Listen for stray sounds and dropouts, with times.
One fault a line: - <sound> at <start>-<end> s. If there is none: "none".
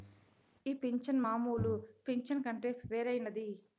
none